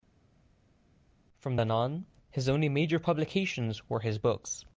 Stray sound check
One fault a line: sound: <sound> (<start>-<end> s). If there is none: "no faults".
no faults